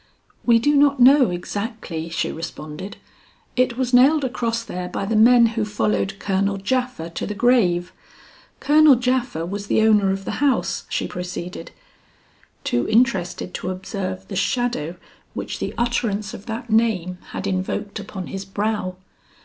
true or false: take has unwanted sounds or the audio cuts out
false